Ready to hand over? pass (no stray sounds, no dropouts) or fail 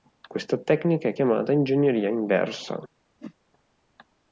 fail